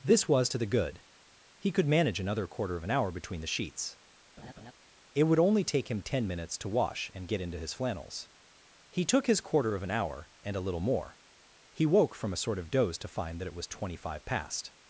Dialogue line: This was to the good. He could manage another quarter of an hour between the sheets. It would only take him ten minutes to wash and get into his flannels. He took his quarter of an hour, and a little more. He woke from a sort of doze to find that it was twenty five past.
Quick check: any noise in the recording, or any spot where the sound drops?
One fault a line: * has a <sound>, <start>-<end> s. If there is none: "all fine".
* has a laugh, 4.4-4.7 s